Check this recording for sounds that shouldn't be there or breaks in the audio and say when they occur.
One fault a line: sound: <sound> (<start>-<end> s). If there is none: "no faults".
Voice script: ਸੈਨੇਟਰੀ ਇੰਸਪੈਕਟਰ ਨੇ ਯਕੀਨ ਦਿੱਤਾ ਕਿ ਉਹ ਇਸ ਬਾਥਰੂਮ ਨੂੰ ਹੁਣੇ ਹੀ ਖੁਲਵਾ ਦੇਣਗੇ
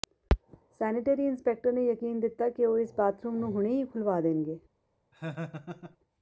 sound: laugh (5.1-6.0 s)